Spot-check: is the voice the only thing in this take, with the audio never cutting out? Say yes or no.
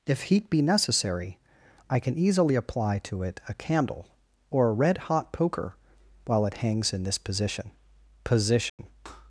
no